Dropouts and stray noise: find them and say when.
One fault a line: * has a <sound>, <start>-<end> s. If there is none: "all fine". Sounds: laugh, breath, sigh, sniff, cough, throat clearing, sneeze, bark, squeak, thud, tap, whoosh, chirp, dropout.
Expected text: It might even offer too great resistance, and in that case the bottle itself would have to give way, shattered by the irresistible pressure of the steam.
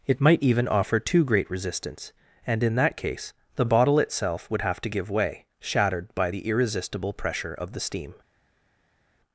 all fine